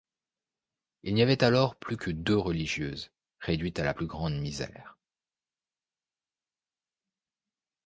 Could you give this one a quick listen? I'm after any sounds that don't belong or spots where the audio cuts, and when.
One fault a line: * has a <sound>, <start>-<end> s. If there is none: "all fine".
all fine